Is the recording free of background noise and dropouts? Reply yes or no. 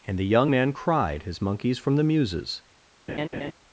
no